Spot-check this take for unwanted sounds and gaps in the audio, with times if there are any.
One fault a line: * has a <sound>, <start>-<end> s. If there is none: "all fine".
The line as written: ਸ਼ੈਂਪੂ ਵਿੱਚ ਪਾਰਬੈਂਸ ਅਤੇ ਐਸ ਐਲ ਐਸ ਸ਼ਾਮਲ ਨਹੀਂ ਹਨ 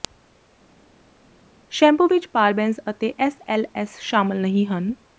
all fine